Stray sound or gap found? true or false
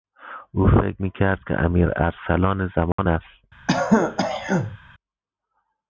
true